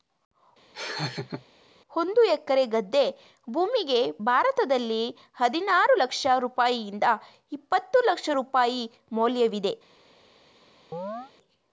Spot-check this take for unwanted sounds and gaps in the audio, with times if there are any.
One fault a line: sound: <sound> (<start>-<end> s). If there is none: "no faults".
sound: laugh (0.7-1.5 s)
sound: chirp (10.9-11.3 s)